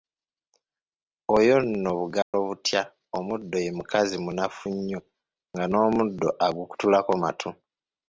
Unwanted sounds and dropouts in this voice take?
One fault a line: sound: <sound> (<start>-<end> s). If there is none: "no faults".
sound: dropout (2.2-2.3 s)